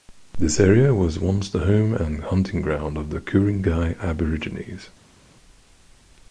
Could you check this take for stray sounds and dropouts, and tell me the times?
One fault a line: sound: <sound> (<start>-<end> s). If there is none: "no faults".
no faults